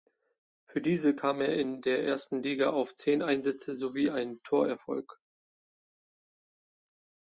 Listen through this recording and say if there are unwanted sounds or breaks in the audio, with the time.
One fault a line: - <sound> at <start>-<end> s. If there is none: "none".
none